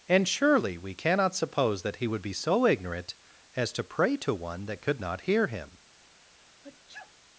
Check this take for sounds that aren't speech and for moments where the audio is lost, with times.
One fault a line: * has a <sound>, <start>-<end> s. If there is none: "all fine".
* has a sneeze, 6.2-7.1 s